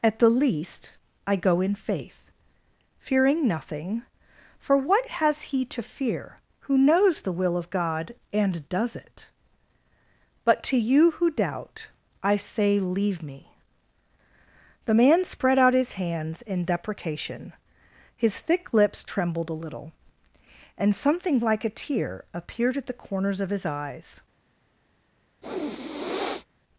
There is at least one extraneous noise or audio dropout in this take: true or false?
true